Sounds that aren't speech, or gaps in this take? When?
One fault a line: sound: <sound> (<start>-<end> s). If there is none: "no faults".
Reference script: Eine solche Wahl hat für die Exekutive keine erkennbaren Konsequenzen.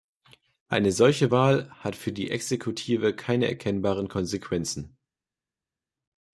no faults